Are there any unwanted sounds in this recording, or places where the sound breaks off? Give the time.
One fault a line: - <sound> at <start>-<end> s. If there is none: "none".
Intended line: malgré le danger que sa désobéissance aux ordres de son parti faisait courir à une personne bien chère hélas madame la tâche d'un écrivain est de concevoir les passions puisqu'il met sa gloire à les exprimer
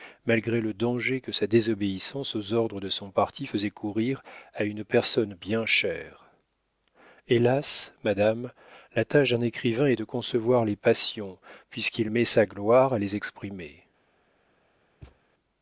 - thud at 15.0-15.2 s